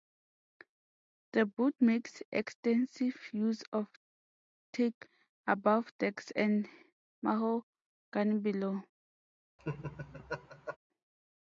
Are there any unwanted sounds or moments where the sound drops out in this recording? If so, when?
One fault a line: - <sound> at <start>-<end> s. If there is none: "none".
- laugh at 9.6-10.8 s